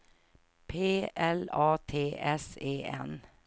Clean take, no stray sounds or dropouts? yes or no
yes